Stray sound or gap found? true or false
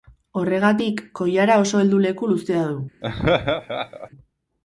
true